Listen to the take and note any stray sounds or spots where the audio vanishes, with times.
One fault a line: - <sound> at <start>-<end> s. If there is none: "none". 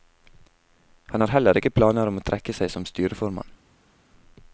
none